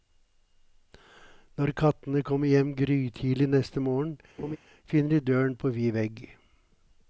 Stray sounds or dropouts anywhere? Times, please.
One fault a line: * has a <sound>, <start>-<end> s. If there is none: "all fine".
* has a laugh, 4.4-4.6 s